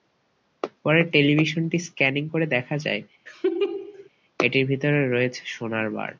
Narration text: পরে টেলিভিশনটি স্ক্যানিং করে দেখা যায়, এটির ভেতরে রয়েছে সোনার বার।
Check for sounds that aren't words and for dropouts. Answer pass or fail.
fail